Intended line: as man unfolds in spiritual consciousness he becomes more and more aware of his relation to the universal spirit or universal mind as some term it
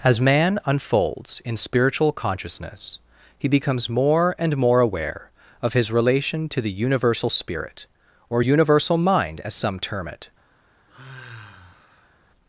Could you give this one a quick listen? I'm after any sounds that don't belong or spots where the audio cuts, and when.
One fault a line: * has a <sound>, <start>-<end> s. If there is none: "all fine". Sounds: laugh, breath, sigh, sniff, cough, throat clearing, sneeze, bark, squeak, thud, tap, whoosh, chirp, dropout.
* has a sigh, 10.9-12.2 s